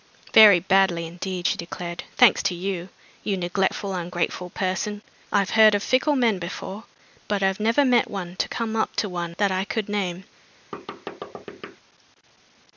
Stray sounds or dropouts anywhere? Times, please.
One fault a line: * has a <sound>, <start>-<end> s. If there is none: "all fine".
* has a thud, 10.7-11.8 s